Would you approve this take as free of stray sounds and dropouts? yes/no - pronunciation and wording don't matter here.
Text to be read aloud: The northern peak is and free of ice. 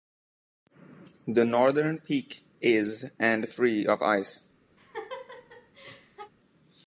no